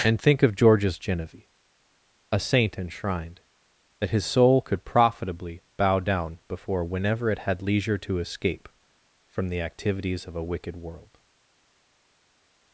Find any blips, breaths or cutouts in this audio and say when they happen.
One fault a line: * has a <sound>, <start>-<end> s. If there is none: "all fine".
all fine